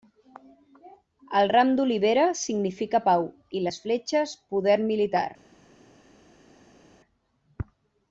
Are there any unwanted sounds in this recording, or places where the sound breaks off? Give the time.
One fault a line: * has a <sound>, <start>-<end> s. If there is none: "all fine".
all fine